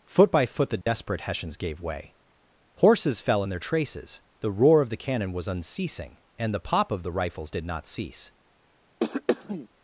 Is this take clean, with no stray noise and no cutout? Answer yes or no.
no